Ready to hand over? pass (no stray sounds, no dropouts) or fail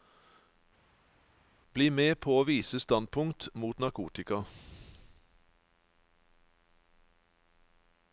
pass